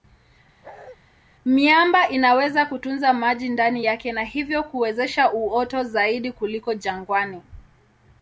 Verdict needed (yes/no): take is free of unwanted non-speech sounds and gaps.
no